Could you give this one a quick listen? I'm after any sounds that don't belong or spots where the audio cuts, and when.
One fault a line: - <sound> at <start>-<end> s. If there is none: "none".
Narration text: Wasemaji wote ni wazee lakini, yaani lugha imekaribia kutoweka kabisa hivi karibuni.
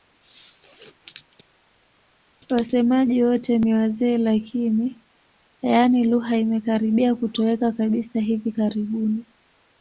none